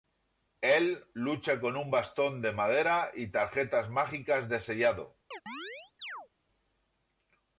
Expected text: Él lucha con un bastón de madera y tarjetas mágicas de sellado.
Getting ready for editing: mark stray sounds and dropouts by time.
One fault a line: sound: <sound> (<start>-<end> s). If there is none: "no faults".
sound: chirp (5.3-6.3 s)